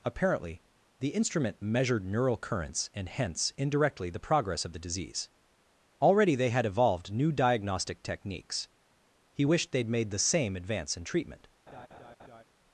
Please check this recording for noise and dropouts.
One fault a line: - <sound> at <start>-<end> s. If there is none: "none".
- laugh at 11.7-12.4 s